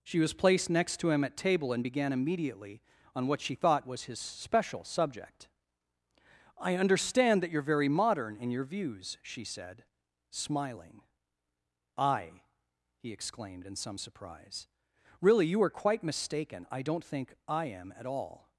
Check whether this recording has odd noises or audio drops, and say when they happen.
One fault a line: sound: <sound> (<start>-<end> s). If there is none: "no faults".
no faults